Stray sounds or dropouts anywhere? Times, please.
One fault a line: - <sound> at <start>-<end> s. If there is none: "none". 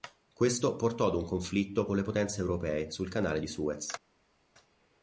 none